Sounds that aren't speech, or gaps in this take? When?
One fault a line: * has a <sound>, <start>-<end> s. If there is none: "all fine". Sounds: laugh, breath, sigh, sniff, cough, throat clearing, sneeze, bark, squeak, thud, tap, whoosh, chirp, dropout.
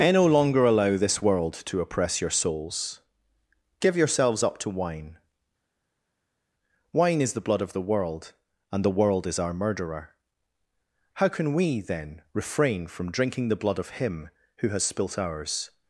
all fine